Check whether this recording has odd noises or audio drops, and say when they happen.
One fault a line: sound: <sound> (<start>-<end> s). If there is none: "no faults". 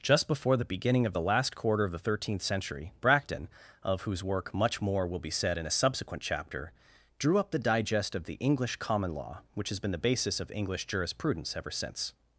no faults